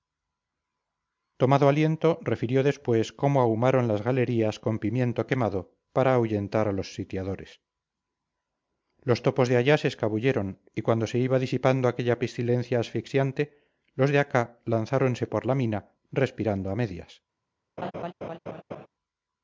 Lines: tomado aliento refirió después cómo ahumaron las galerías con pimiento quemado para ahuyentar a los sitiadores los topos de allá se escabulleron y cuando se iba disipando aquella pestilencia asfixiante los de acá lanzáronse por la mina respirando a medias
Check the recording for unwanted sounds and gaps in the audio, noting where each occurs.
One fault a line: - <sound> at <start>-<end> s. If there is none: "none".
- laugh at 17.8-18.9 s